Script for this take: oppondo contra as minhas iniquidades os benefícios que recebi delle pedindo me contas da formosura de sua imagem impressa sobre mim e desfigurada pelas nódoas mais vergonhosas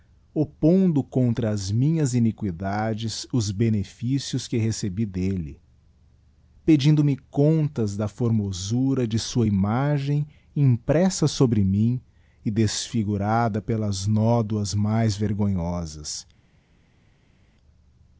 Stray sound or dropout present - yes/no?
no